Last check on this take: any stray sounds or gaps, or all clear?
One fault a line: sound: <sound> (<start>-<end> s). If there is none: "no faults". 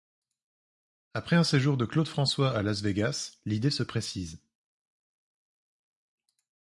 no faults